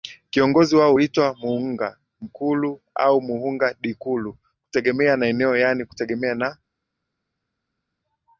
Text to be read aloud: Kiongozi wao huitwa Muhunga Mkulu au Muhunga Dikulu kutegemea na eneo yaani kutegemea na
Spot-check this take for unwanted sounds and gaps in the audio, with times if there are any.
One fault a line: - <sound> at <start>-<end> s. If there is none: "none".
none